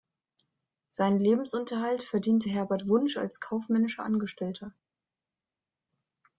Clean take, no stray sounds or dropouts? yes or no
yes